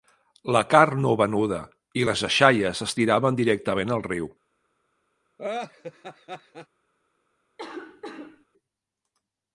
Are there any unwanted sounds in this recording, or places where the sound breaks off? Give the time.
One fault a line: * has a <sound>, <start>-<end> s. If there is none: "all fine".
* has a laugh, 5.4-6.7 s
* has a cough, 7.6-8.5 s